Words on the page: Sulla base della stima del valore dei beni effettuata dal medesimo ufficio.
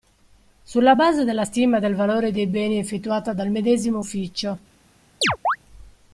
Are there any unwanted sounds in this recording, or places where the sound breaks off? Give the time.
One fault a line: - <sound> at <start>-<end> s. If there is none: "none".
- chirp at 5.2-5.6 s